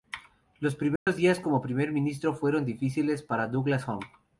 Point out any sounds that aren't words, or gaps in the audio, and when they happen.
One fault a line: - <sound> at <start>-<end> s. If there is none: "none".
- dropout at 1.0-1.1 s